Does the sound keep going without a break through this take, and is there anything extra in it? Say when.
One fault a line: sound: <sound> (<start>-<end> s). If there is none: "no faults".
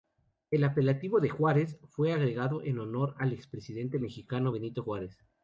no faults